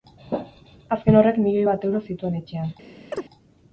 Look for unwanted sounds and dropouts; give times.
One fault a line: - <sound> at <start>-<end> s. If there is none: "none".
- chirp at 3.1-3.3 s